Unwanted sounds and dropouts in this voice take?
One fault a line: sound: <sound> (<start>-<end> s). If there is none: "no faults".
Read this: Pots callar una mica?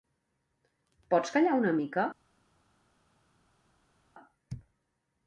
no faults